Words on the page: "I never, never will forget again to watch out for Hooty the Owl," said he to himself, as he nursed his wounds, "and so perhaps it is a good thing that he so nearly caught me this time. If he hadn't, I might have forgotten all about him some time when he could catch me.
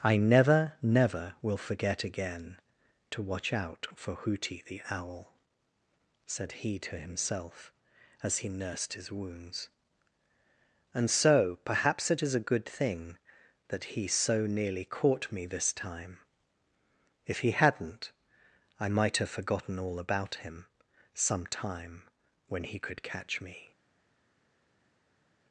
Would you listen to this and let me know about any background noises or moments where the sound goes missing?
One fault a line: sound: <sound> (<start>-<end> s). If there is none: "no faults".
no faults